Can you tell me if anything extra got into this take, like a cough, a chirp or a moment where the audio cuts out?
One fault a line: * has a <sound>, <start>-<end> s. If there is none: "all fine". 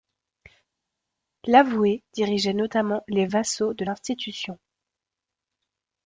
all fine